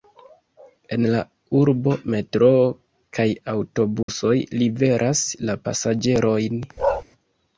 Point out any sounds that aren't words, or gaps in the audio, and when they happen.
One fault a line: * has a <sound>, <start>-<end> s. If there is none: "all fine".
* has a dropout, 4.0-4.1 s
* has a bark, 6.8-7.0 s